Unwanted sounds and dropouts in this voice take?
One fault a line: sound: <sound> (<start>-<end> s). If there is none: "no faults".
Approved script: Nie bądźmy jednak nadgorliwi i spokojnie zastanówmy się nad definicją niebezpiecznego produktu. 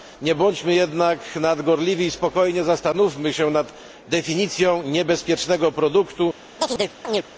sound: chirp (6.6-7.2 s)